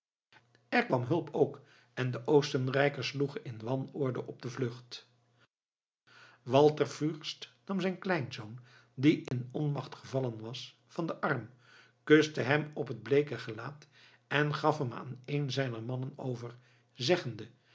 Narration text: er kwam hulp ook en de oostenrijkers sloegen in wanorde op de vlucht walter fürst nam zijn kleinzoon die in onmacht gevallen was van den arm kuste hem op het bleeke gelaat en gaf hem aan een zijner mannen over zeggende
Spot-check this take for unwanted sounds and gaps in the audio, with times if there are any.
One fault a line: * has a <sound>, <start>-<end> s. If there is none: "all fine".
* has a dropout, 9.3-9.3 s